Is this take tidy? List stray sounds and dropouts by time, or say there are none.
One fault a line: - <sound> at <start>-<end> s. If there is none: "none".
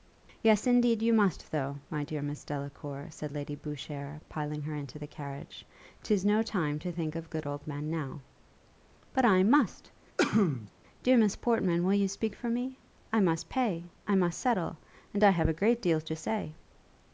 - sneeze at 10.2-10.7 s